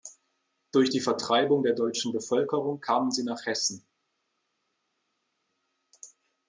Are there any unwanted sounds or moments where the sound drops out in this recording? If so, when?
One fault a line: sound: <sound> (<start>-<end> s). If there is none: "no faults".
no faults